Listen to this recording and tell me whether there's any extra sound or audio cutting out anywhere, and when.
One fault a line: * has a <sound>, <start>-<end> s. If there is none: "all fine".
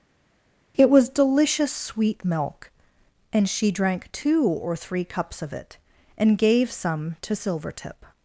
all fine